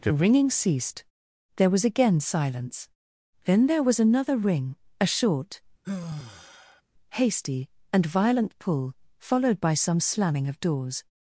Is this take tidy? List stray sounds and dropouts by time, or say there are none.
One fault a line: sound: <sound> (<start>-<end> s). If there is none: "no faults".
sound: sigh (5.8-6.8 s)